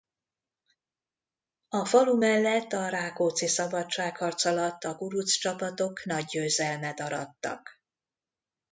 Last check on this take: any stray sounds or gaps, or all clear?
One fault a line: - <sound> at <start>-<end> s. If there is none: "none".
none